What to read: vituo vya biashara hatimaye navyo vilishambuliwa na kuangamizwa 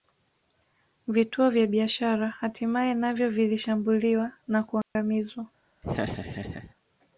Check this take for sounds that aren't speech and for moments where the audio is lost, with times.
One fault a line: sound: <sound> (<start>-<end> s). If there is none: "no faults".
sound: dropout (4.8-5.0 s)
sound: laugh (5.8-6.7 s)